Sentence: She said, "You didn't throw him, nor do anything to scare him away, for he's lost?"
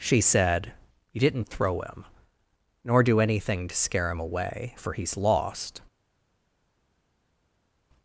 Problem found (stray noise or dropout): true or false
false